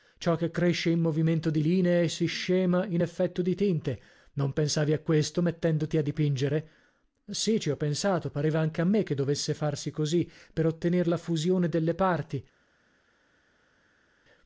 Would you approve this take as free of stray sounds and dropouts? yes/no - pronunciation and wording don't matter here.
yes